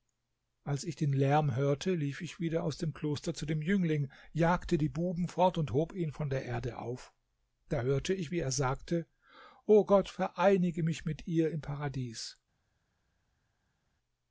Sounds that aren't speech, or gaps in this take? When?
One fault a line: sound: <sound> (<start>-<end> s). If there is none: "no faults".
no faults